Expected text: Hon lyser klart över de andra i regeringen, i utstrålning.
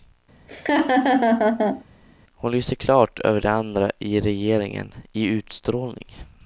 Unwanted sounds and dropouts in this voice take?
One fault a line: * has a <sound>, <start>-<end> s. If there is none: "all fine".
* has a laugh, 0.5-1.8 s